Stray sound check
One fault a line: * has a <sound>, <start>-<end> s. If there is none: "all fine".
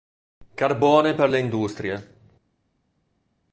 all fine